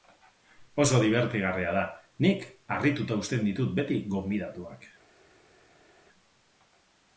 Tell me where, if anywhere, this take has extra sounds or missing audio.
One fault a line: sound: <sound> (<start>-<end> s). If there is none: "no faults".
no faults